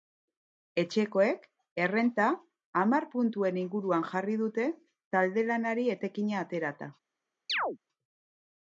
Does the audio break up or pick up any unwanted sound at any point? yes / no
yes